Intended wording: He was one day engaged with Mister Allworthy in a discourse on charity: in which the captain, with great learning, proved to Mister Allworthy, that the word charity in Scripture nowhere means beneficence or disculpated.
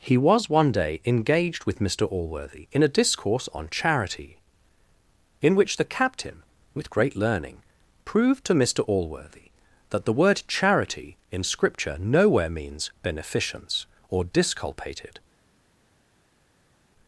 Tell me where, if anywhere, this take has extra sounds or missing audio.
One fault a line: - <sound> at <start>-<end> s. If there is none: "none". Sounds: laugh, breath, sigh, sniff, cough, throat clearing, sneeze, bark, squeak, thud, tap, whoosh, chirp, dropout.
none